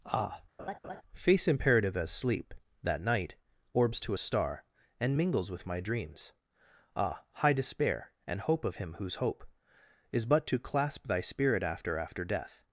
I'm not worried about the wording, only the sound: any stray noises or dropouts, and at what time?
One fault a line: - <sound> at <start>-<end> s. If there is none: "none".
- laugh at 0.6-1.0 s